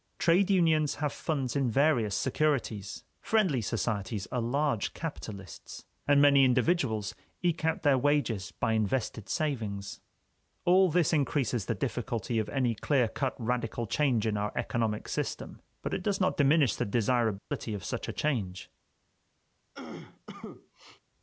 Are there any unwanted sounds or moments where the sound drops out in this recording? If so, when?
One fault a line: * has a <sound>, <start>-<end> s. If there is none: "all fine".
* has a dropout, 17.4-17.5 s
* has a cough, 19.7-21.0 s